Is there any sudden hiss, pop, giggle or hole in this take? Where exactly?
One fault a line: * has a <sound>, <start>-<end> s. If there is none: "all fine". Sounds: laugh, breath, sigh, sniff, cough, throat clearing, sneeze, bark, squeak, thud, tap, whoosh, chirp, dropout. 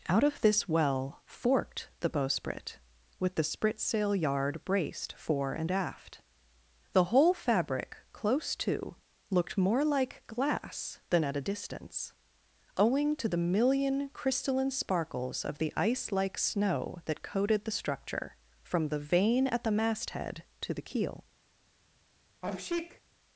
* has a sneeze, 22.4-23.0 s